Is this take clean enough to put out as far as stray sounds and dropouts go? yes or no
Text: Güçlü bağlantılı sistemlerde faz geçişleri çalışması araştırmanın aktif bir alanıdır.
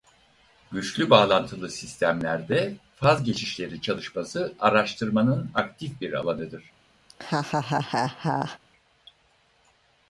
no